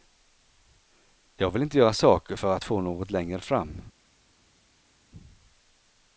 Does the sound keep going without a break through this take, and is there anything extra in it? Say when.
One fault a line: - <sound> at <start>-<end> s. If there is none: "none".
none